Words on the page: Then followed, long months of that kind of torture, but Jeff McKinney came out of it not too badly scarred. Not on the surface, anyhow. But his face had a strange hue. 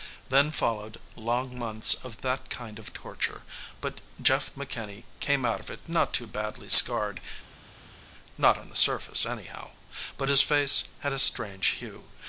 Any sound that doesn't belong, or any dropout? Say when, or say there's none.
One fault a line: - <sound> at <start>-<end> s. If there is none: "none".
none